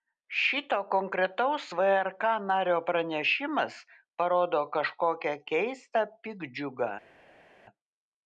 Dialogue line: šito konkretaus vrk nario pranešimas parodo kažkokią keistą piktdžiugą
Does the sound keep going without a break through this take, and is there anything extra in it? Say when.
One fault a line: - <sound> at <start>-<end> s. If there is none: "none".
none